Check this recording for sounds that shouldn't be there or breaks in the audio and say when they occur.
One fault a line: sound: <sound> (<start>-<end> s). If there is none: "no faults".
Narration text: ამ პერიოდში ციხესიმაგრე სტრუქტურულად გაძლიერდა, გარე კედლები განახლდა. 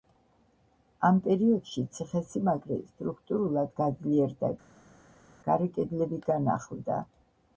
no faults